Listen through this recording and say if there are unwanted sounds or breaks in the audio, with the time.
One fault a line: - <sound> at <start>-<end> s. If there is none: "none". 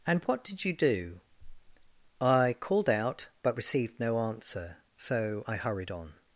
none